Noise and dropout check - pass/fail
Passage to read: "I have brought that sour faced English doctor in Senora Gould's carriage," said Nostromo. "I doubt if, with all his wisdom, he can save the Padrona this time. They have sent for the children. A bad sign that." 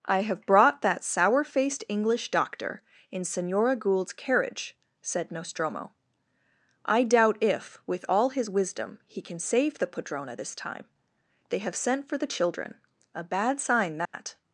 fail